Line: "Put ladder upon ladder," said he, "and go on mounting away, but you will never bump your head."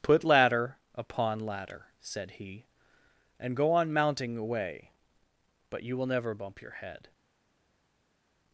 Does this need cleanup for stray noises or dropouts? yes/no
no